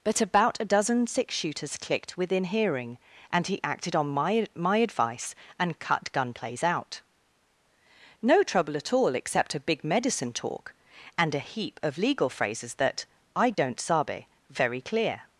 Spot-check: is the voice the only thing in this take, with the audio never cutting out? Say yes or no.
no